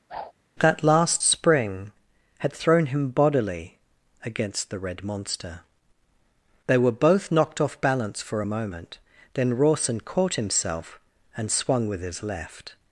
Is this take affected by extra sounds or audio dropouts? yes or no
yes